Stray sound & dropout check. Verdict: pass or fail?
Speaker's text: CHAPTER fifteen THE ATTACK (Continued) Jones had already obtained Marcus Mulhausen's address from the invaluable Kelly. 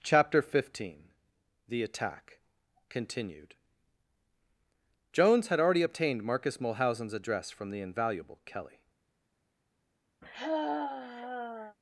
fail